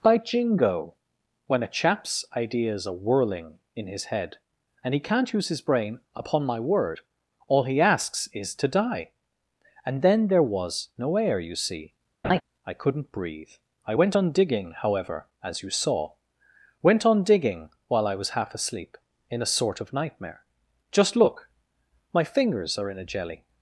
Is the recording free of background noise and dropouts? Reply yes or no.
no